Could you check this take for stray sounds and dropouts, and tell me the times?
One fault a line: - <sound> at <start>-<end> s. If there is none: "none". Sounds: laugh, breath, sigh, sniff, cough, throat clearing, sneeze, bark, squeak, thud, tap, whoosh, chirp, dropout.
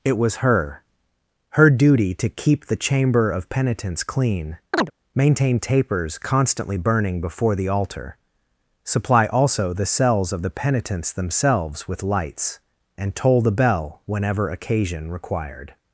- chirp at 4.7-4.9 s